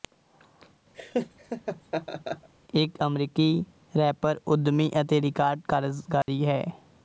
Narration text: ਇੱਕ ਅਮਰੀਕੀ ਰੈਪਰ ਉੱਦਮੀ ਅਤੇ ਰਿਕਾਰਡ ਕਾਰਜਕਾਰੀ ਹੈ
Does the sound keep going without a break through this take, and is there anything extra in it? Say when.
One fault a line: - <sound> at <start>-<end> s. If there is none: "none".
- laugh at 0.9-2.5 s
- dropout at 6.2-6.3 s